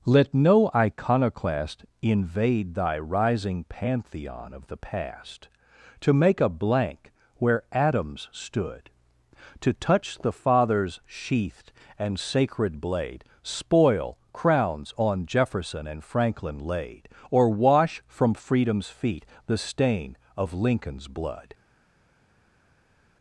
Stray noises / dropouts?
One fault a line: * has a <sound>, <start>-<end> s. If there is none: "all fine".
all fine